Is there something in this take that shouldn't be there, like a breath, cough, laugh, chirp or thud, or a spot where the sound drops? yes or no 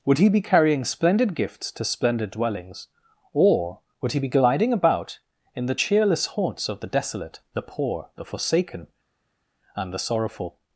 no